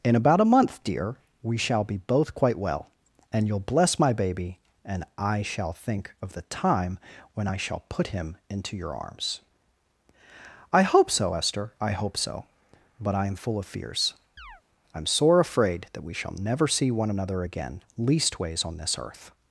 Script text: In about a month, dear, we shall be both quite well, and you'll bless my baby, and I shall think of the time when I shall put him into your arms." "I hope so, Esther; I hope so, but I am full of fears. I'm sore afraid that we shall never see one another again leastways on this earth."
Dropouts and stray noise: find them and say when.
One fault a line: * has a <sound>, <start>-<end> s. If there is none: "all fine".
* has a chirp, 14.4-14.6 s